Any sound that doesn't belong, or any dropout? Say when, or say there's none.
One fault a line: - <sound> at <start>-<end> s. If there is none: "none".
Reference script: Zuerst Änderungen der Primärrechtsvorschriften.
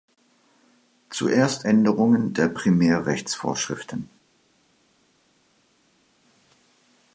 none